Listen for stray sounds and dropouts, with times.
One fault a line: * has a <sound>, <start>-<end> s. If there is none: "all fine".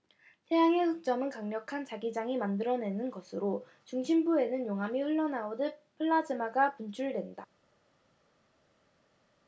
all fine